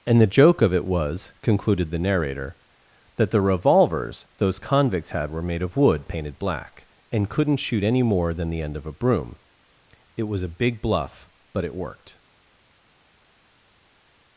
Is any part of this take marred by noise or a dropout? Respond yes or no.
no